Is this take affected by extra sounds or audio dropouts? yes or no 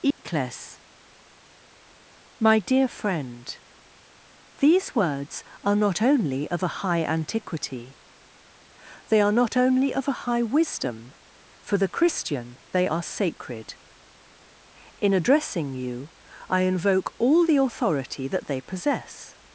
yes